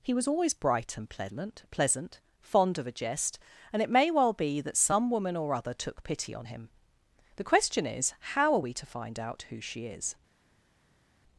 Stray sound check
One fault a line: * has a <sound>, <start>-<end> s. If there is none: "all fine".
all fine